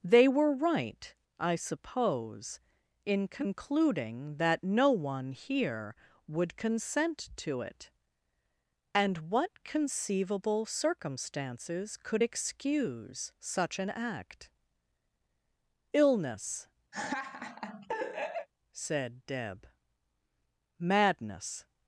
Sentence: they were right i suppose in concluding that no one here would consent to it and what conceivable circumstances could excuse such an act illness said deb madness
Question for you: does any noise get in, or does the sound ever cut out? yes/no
yes